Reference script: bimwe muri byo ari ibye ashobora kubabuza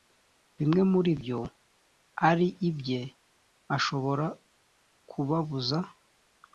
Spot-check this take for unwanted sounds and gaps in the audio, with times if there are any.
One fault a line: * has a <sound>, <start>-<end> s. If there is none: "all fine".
all fine